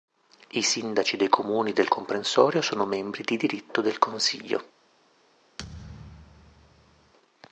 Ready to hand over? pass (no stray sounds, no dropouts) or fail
fail